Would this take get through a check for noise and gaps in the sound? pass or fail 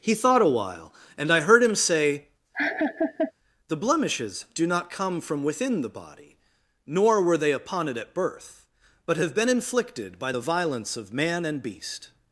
fail